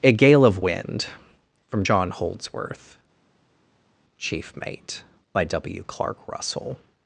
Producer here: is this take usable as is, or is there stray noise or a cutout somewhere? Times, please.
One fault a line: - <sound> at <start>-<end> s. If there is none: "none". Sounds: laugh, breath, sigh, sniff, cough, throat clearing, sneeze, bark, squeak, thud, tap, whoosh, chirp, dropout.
none